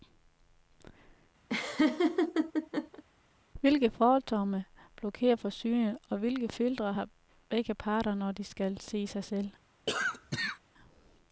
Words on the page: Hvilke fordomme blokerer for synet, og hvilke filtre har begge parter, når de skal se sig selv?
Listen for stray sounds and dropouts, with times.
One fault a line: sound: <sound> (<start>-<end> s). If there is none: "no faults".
sound: laugh (1.5-3.0 s)
sound: cough (9.9-10.6 s)